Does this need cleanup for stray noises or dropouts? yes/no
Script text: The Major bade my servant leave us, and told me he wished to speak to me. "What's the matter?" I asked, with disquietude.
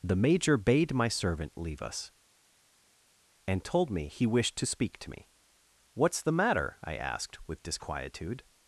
no